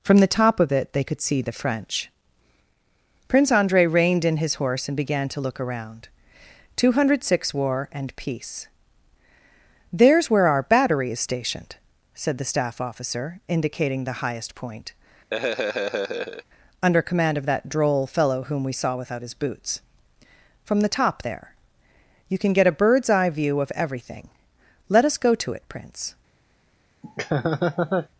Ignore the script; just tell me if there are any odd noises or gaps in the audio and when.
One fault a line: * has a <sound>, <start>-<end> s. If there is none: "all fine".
* has a laugh, 15.3-16.4 s
* has a laugh, 27.0-28.1 s